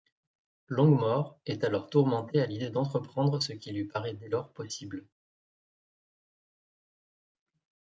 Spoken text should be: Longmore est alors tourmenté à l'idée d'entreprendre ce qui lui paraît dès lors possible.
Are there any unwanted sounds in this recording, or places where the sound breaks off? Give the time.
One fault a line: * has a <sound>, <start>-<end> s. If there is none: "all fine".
all fine